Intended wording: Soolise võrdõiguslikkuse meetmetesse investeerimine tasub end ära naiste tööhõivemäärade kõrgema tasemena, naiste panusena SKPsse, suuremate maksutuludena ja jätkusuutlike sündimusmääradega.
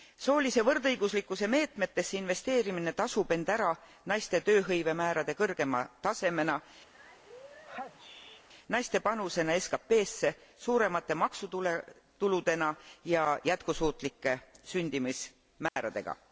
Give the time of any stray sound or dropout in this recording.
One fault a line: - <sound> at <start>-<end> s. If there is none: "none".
- sneeze at 6.9-8.5 s
- dropout at 15.7-15.8 s